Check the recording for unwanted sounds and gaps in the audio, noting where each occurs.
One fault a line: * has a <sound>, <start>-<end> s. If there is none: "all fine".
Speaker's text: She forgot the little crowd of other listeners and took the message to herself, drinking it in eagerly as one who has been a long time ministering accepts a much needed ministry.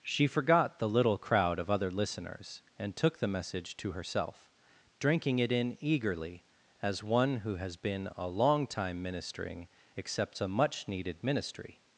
all fine